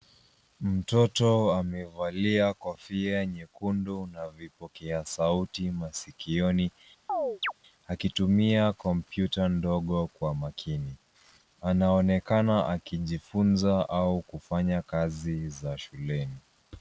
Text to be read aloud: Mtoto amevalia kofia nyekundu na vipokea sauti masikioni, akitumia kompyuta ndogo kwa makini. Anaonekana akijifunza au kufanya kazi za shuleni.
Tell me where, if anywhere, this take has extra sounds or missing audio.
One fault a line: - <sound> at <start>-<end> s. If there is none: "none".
- chirp at 7.1-7.5 s